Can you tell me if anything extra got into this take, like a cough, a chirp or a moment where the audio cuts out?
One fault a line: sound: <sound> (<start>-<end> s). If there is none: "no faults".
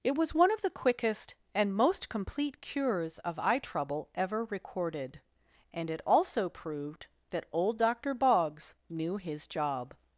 no faults